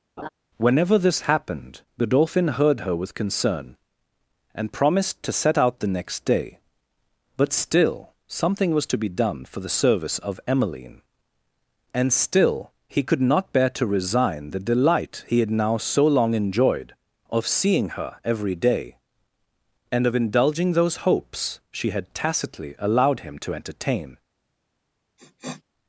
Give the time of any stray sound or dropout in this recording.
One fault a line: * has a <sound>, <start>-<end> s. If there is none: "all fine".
* has a laugh, 0.2-0.3 s
* has a sniff, 25.2-25.6 s